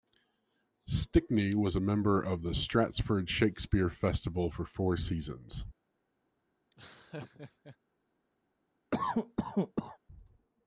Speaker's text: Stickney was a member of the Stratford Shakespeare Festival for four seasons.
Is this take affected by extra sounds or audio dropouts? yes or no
yes